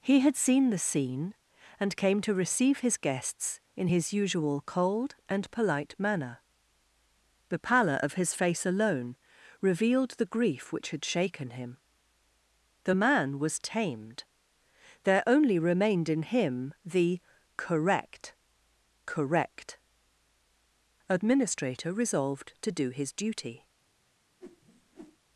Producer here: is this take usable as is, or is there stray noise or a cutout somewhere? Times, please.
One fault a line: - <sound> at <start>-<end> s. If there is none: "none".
- whoosh at 24.4-25.2 s